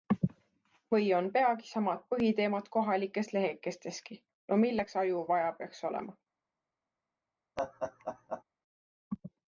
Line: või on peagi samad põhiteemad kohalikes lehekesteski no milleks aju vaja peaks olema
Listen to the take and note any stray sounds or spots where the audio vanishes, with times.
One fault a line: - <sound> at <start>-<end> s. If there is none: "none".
- laugh at 7.6-8.4 s